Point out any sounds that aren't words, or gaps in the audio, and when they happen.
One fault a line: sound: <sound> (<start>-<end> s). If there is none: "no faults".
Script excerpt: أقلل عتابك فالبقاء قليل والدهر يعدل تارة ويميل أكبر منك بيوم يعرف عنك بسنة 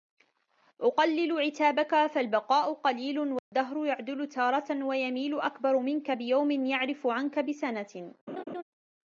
sound: dropout (3.4-3.5 s)
sound: laugh (8.3-8.6 s)